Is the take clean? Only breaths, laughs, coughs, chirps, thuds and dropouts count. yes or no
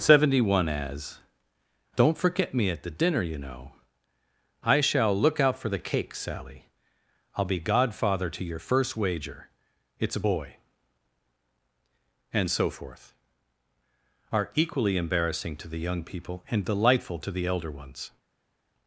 yes